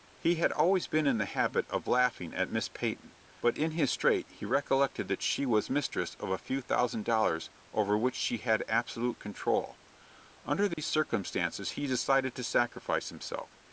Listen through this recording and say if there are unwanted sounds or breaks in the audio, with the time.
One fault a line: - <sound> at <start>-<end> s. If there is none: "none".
- dropout at 10.7-10.8 s